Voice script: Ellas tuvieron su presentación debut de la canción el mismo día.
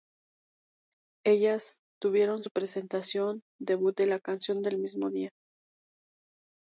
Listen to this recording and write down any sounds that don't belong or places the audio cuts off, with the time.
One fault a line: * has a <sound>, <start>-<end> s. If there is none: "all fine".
all fine